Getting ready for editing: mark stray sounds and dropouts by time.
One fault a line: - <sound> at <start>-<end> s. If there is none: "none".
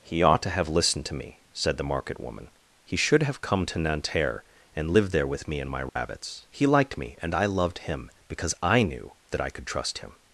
- dropout at 5.9-6.0 s